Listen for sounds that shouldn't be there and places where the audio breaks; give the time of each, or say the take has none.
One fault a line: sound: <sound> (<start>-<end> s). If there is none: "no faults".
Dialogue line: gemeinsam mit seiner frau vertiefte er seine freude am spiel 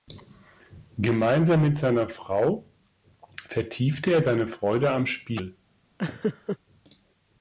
sound: laugh (6.0-6.6 s)